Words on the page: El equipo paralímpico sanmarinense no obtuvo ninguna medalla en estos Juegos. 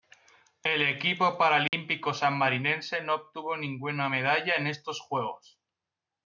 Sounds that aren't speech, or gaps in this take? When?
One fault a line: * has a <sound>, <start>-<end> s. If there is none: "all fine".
* has a dropout, 1.7-1.7 s